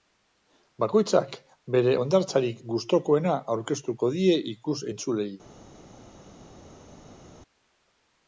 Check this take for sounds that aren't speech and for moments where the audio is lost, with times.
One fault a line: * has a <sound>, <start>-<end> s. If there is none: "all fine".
all fine